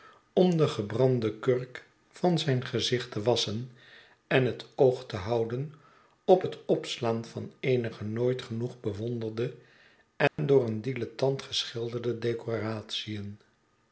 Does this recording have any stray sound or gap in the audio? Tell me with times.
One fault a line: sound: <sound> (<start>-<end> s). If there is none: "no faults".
sound: dropout (10.3-10.4 s)